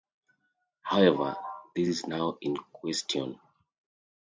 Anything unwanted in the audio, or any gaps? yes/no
no